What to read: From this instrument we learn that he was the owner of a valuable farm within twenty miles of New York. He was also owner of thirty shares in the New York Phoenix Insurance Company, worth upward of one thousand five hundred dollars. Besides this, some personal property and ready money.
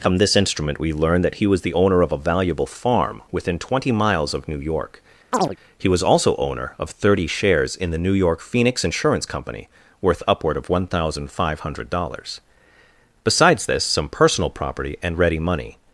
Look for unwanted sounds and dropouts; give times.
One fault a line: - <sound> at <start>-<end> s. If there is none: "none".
- chirp at 5.3-5.6 s